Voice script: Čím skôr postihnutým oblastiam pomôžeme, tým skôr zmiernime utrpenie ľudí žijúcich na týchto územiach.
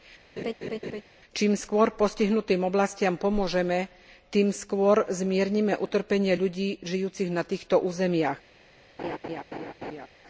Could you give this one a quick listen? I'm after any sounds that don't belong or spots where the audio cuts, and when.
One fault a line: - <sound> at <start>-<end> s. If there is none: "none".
- laugh at 0.4-1.0 s
- laugh at 9.0-10.1 s